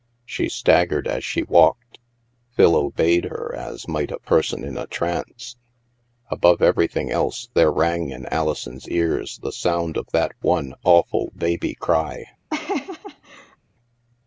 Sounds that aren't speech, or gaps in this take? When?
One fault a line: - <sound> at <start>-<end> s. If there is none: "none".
- laugh at 12.5-13.6 s